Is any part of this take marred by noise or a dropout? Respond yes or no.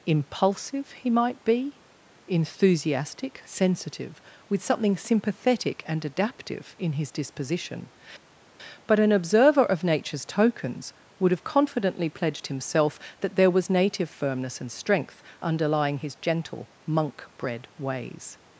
no